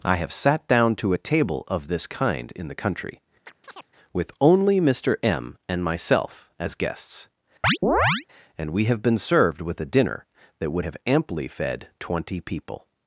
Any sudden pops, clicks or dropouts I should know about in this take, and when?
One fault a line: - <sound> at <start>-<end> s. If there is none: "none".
- chirp at 3.5-3.9 s
- chirp at 7.6-8.3 s